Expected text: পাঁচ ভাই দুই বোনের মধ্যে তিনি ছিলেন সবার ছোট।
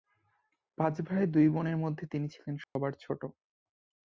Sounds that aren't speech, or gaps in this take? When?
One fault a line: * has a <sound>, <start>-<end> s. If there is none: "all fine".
* has a dropout, 2.6-2.8 s